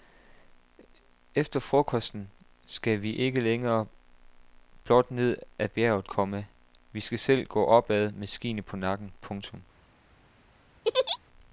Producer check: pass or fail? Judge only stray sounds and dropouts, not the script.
fail